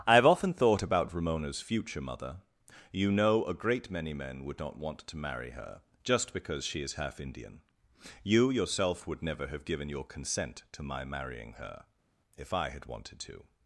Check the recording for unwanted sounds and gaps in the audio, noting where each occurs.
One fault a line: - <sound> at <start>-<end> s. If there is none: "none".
none